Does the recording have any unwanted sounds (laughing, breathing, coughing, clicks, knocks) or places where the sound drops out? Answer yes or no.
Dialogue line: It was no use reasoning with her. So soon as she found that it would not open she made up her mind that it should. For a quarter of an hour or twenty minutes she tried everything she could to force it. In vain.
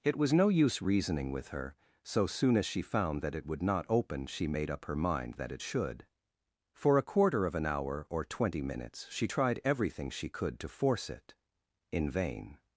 no